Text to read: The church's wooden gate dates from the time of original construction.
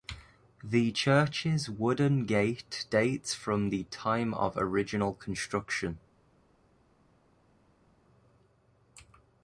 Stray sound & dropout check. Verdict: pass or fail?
pass